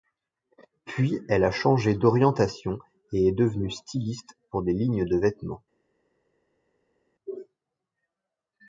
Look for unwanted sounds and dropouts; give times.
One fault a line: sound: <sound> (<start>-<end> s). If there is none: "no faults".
no faults